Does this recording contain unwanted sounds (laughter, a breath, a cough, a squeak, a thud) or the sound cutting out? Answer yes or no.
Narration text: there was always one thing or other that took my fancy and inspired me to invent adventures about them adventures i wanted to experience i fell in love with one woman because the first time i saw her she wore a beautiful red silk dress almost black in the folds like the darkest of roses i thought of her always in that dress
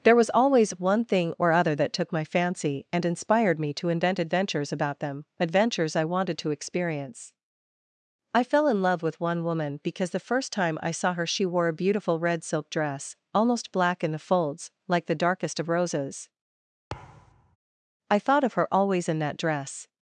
yes